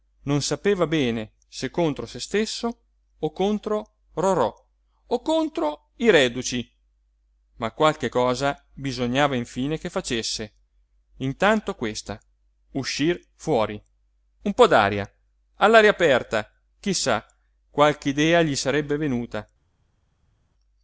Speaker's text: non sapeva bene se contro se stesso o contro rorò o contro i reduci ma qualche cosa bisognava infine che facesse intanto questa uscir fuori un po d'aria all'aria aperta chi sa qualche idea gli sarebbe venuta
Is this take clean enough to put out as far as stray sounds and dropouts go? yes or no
yes